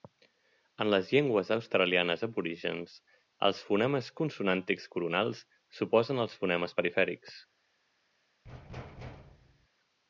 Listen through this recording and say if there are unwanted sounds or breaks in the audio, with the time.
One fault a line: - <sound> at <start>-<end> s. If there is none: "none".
- thud at 8.4-9.7 s